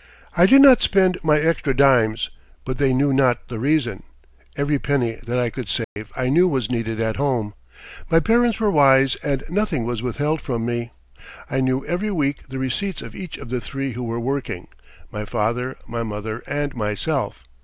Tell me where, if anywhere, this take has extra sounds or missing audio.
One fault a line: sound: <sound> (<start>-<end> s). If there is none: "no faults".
sound: dropout (5.8-6.0 s)